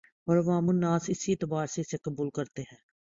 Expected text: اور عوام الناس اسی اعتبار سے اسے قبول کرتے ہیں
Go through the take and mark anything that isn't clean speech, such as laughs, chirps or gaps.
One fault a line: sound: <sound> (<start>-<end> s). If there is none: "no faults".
no faults